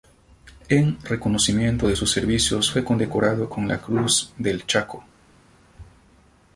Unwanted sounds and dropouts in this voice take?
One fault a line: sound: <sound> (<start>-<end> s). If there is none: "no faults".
no faults